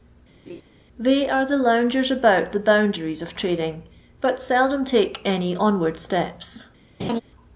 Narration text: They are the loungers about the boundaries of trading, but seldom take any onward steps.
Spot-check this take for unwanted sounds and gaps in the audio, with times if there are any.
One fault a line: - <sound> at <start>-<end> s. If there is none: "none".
- laugh at 0.5-0.6 s
- laugh at 7.0-7.2 s